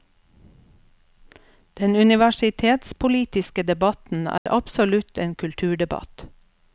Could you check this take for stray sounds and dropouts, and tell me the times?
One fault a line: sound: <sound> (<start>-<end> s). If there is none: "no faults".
sound: dropout (4.4-4.5 s)